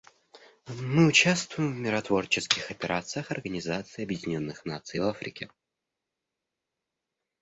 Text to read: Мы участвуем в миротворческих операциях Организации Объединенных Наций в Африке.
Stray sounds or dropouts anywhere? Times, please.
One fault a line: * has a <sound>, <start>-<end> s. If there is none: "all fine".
all fine